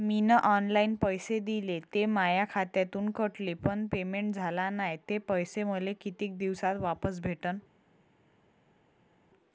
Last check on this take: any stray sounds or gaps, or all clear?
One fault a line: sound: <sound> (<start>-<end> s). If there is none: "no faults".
no faults